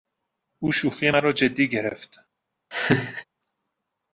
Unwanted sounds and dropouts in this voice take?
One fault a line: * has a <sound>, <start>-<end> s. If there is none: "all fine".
* has a laugh, 2.7-3.2 s